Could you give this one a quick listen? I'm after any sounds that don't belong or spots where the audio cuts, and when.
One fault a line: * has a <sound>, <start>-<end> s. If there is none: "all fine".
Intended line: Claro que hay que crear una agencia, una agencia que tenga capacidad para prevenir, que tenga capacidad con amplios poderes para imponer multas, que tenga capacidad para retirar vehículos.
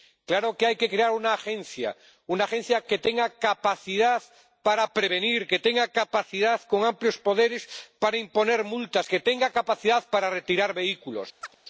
* has a chirp, 11.4-11.6 s